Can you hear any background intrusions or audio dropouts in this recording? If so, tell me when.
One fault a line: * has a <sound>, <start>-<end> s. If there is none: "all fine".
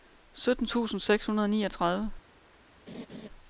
* has a laugh, 2.9-3.3 s